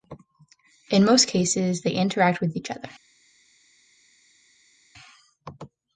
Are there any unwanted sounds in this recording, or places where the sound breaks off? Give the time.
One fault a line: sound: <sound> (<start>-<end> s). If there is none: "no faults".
no faults